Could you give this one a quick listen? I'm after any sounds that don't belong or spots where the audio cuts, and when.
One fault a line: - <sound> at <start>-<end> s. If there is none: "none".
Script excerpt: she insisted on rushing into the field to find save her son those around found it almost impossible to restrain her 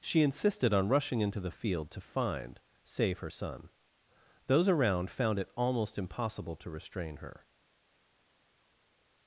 none